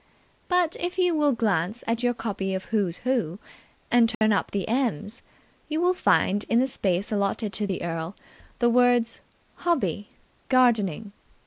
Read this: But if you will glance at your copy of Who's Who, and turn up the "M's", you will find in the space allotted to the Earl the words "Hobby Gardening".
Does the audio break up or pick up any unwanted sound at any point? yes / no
yes